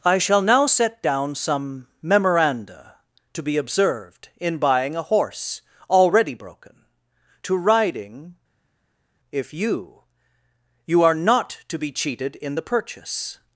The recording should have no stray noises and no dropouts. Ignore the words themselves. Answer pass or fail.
pass